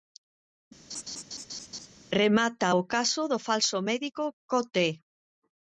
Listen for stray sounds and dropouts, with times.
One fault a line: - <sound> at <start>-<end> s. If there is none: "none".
- laugh at 0.9-1.9 s